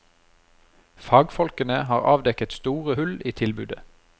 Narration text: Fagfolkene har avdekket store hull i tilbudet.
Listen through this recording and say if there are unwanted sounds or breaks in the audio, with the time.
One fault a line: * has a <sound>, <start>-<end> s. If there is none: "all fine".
all fine